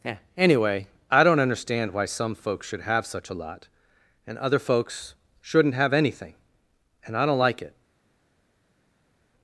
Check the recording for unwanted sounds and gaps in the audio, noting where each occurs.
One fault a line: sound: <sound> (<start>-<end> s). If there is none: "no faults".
no faults